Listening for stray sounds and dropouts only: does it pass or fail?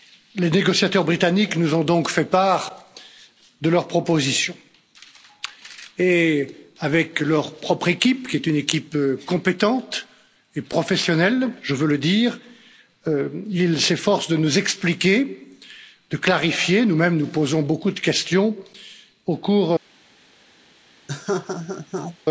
fail